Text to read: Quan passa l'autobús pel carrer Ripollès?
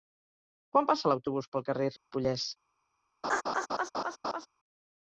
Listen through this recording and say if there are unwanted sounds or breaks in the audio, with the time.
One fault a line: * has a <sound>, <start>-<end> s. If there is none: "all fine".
* has a dropout, 2.0-2.1 s
* has a laugh, 3.2-4.5 s